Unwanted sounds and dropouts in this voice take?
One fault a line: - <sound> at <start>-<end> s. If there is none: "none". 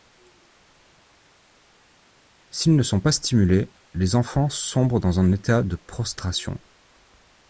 none